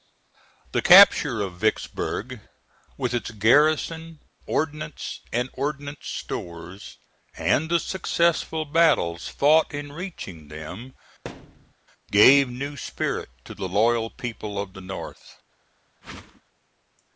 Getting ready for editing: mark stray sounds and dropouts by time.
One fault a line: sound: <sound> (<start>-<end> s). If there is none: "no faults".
sound: thud (11.2-11.7 s)
sound: whoosh (16.0-16.4 s)